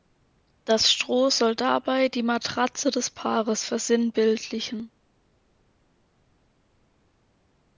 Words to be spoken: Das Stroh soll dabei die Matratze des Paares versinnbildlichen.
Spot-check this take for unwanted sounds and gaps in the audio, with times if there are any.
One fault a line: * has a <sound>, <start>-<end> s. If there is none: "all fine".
all fine